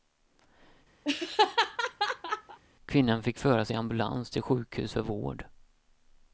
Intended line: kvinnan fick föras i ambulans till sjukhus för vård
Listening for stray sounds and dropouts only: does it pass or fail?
fail